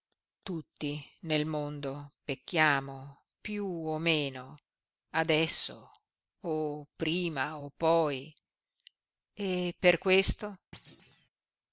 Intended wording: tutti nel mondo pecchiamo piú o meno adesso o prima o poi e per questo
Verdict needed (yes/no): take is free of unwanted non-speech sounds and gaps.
no